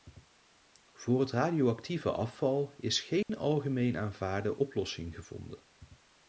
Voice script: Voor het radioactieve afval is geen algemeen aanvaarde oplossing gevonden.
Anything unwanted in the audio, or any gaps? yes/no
yes